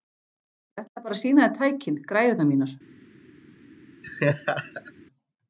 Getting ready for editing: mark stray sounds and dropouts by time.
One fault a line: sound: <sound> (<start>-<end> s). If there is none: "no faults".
sound: laugh (4.0-4.9 s)